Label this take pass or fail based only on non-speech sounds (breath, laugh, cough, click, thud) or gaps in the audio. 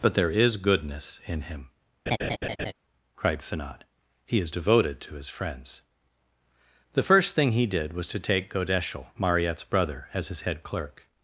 fail